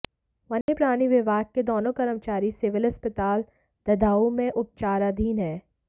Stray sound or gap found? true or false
true